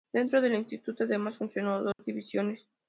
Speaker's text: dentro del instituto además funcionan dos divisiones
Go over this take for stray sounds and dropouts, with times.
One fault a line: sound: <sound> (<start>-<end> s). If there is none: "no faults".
sound: dropout (1.9-2.0 s)